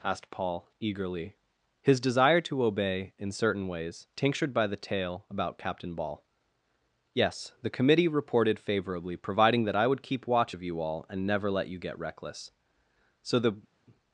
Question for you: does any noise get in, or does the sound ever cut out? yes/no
no